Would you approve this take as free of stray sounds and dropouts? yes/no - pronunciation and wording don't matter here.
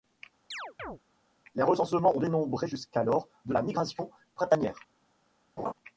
no